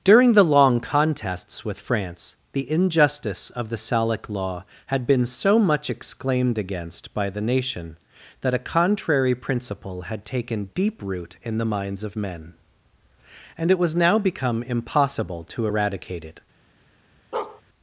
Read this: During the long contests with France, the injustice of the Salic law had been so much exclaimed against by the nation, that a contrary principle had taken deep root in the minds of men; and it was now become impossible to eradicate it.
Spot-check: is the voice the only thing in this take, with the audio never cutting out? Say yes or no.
no